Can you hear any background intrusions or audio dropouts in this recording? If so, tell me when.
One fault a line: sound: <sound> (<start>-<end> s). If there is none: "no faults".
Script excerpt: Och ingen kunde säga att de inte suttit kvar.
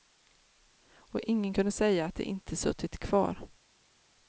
no faults